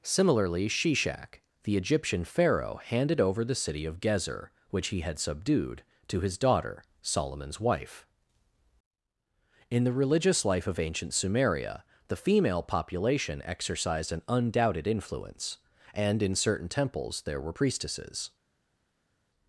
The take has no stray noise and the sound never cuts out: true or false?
true